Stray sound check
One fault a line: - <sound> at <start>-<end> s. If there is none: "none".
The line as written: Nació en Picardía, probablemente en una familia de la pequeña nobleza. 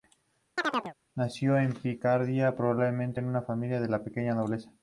- chirp at 0.6-0.9 s